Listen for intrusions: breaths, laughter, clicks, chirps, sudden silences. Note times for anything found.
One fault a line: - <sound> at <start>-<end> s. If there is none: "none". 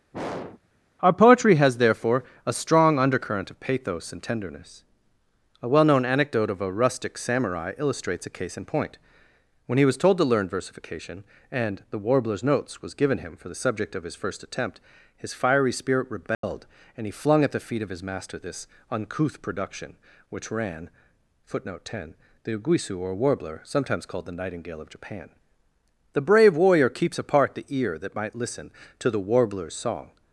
- throat clearing at 0.1-0.6 s
- dropout at 16.3-16.4 s